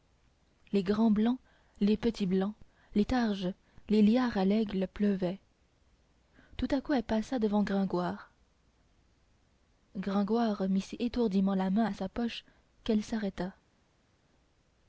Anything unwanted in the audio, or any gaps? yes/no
no